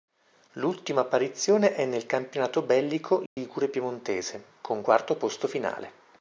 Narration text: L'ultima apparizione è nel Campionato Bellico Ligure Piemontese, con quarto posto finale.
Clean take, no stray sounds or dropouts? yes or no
no